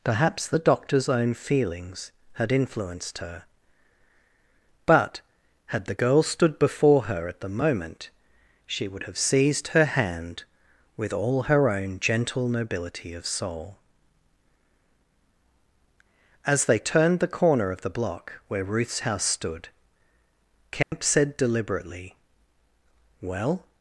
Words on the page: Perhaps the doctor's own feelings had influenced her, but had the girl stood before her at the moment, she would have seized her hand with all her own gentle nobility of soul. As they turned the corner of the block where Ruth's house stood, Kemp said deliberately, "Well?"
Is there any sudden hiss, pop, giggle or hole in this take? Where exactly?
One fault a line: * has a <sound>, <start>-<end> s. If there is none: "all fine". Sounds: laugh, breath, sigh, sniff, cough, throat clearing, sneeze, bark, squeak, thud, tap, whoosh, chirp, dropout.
* has a dropout, 20.8-20.9 s